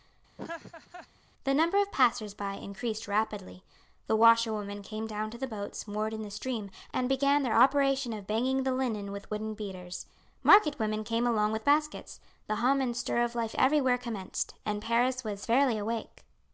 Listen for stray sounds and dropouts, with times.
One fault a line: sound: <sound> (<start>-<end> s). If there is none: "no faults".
sound: laugh (0.4-1.1 s)